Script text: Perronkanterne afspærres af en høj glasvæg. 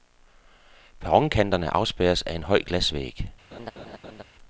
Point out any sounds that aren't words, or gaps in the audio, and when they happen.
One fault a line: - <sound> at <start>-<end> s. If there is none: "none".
- laugh at 3.5-4.2 s